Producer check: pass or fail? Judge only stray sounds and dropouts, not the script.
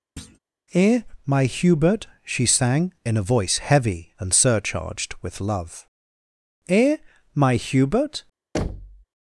fail